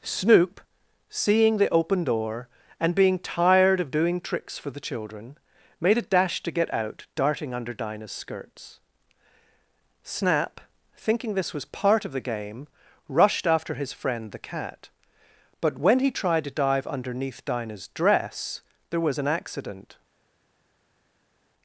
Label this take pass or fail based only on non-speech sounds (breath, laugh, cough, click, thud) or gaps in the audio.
pass